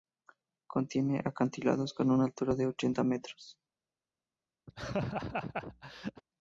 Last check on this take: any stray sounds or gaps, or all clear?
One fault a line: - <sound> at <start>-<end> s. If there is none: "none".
- laugh at 4.7-6.2 s